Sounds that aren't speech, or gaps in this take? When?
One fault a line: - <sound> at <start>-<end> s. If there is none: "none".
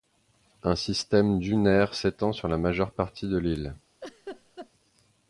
- laugh at 4.0-4.7 s